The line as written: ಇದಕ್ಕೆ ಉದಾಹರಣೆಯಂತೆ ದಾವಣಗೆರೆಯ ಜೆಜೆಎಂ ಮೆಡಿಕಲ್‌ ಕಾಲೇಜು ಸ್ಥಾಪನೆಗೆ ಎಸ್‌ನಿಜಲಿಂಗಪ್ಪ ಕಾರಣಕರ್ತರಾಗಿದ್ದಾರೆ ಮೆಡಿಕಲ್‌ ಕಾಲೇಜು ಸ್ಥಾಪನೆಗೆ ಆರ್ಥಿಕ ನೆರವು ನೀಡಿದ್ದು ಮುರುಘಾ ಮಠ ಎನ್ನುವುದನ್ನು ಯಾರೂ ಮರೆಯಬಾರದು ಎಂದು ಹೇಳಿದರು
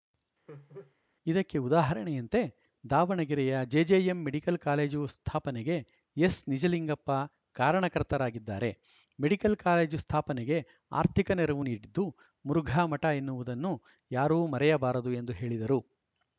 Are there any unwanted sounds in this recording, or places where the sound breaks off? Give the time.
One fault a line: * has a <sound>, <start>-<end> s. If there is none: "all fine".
* has a laugh, 0.5-0.9 s